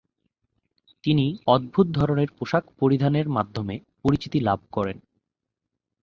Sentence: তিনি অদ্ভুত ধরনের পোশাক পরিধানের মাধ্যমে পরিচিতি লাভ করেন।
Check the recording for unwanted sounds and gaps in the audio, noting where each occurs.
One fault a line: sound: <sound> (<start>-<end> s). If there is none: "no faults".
no faults